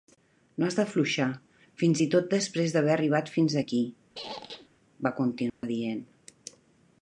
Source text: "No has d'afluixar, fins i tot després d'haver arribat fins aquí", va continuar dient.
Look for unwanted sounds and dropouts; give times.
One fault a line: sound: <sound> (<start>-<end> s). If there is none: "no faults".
sound: squeak (4.1-4.7 s)
sound: dropout (5.5-5.6 s)